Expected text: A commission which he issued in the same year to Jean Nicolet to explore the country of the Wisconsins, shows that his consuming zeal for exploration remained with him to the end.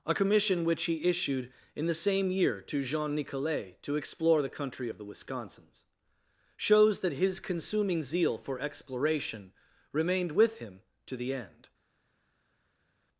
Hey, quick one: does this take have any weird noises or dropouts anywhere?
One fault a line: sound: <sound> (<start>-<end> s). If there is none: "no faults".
no faults